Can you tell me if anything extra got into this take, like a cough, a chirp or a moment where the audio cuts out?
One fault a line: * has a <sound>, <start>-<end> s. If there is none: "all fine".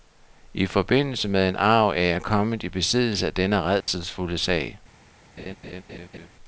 * has a dropout, 3.8-3.9 s
* has a laugh, 5.4-6.3 s